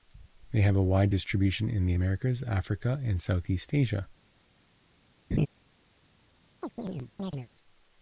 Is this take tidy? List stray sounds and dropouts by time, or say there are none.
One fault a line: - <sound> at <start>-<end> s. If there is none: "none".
- laugh at 5.3-5.5 s
- chirp at 6.6-7.5 s